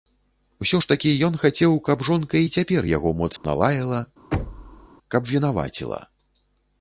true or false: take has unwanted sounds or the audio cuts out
true